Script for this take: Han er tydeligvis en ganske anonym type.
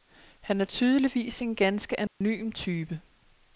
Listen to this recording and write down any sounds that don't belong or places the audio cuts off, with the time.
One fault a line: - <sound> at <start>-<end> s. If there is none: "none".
- dropout at 2.1-2.2 s